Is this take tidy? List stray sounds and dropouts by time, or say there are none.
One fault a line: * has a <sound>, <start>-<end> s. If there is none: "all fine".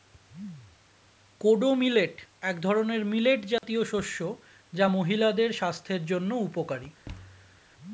* has a dropout, 3.6-3.6 s
* has a thud, 7.1-7.6 s